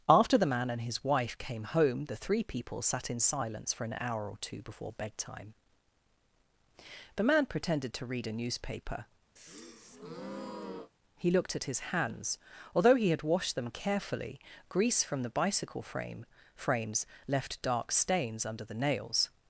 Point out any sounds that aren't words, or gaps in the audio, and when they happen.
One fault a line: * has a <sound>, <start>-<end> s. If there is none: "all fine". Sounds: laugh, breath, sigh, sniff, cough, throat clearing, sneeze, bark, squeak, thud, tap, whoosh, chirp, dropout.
* has a breath, 9.4-10.9 s